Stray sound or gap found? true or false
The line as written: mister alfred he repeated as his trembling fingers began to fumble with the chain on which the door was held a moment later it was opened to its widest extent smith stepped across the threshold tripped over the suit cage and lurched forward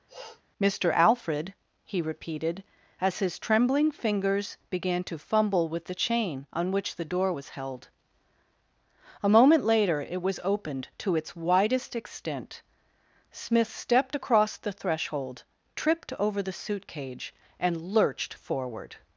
true